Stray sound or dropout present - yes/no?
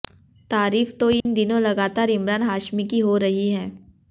yes